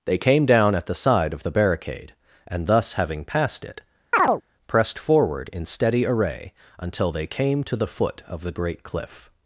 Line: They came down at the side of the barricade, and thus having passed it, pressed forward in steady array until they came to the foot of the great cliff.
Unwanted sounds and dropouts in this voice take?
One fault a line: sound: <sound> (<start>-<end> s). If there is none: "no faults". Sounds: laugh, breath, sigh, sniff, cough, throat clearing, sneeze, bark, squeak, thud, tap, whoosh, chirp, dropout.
sound: chirp (4.1-4.4 s)